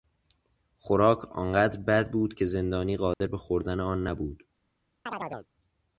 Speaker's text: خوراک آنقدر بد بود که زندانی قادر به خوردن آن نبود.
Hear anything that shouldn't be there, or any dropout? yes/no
yes